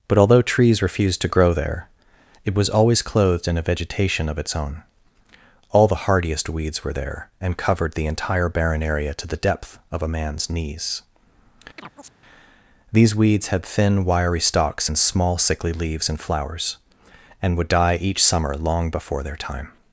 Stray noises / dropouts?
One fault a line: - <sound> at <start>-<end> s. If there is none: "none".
- chirp at 11.8-12.1 s